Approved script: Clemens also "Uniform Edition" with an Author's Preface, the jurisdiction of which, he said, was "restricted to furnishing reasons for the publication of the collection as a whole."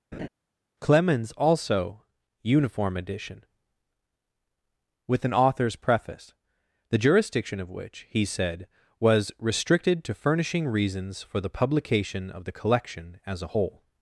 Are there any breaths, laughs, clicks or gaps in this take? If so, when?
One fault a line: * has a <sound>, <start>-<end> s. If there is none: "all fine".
* has a laugh, 0.1-0.3 s